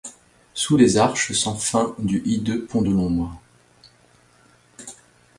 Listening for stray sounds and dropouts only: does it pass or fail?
pass